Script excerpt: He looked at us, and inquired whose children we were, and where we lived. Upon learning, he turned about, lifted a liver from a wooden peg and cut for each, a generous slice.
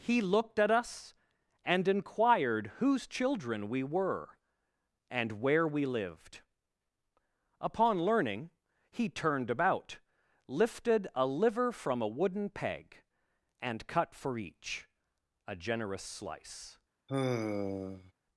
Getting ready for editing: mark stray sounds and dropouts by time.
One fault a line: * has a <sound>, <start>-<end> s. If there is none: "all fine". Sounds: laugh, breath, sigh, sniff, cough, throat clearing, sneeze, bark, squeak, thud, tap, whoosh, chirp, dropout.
* has a sigh, 17.1-18.1 s